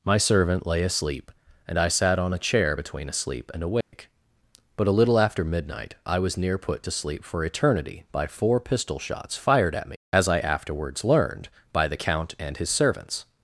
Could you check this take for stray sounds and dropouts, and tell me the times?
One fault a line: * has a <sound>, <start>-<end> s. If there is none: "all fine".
* has a dropout, 3.8-3.9 s